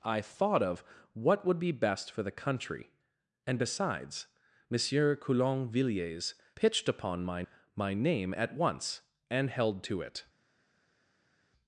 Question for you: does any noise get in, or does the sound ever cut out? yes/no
no